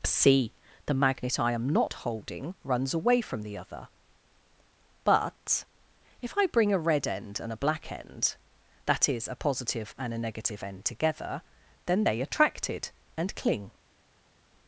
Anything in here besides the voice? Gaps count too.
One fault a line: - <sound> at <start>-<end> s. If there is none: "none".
none